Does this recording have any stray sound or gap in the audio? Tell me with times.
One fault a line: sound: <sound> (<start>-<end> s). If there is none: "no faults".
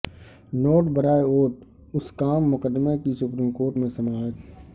no faults